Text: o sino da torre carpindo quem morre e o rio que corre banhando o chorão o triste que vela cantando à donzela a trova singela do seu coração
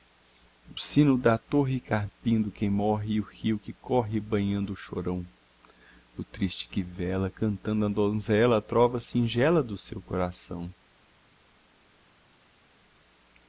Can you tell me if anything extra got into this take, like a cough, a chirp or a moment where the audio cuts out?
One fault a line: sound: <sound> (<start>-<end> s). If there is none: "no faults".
no faults